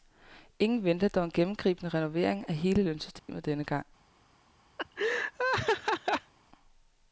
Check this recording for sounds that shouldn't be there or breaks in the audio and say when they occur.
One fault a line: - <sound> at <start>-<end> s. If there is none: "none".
- dropout at 3.2-3.3 s
- laugh at 4.8-6.3 s